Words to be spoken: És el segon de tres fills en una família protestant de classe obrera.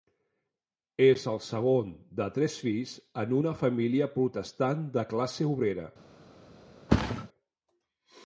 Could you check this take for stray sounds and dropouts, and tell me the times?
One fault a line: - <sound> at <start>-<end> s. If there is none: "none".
- thud at 6.9-7.3 s